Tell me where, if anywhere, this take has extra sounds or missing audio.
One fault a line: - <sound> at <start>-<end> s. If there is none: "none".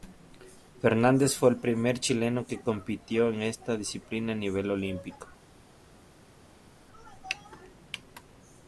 none